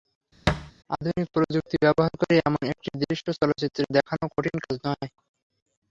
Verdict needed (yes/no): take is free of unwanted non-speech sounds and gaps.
no